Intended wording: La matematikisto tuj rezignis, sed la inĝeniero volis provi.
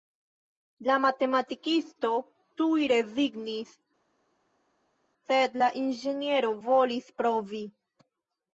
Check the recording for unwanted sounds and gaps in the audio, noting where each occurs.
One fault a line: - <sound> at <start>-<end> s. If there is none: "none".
none